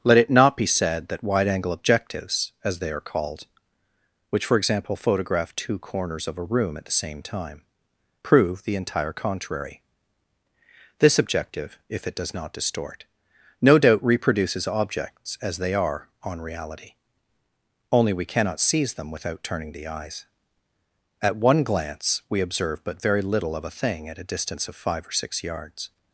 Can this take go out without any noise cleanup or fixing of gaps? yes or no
yes